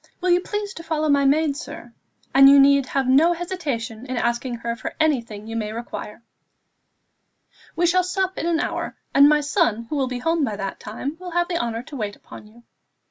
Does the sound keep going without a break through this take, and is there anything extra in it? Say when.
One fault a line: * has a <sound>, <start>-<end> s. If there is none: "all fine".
all fine